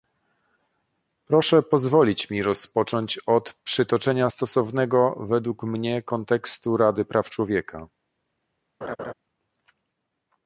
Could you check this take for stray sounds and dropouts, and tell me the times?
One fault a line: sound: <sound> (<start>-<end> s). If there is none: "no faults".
sound: laugh (8.8-9.1 s)